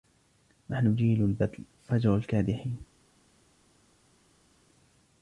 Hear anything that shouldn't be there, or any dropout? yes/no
no